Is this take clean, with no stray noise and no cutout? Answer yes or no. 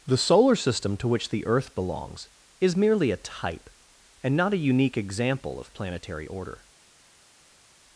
yes